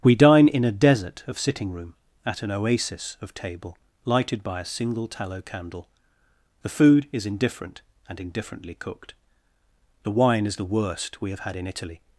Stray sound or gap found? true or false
false